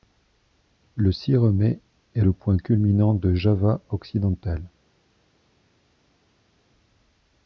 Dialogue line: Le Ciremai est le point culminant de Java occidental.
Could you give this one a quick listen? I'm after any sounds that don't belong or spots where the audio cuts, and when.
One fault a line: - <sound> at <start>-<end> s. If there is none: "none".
none